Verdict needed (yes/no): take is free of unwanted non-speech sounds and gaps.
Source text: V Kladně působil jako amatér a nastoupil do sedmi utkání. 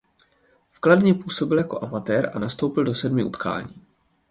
yes